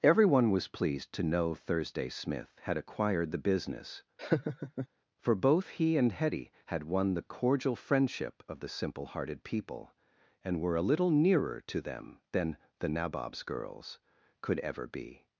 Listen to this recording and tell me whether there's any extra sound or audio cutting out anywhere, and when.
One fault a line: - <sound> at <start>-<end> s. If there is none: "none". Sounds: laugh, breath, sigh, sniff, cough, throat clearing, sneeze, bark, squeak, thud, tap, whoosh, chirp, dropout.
- laugh at 4.2-4.9 s